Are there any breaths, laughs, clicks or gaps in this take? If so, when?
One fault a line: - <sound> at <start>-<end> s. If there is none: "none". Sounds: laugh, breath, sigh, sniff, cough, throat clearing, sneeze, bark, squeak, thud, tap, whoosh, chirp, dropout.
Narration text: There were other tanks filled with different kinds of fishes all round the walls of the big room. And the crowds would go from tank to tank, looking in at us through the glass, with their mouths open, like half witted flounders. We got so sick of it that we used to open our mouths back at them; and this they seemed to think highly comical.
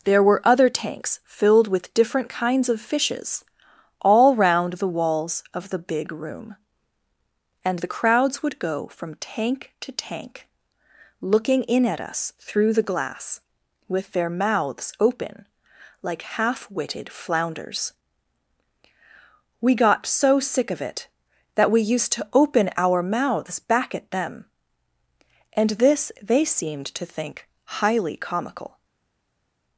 none